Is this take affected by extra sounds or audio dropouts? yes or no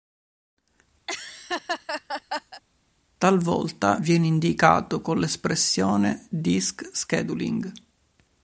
yes